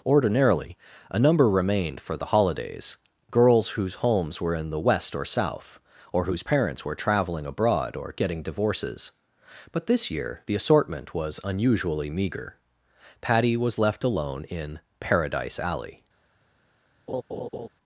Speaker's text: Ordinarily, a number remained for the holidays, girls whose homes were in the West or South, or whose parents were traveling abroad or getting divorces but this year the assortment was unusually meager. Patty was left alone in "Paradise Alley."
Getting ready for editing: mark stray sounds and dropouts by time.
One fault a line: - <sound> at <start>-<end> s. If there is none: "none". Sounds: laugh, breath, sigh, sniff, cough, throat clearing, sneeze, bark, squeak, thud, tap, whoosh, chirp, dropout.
- laugh at 17.1-17.7 s